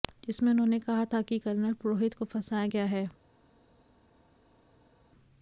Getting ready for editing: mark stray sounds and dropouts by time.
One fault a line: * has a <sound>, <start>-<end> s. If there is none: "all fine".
all fine